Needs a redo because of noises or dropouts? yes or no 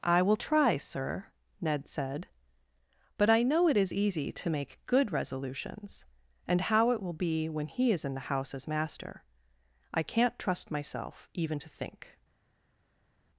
no